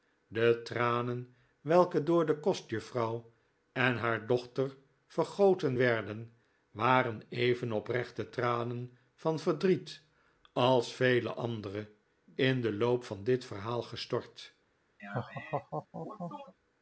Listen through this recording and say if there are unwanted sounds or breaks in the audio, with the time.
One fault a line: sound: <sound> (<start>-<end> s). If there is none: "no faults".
sound: laugh (15.0-16.5 s)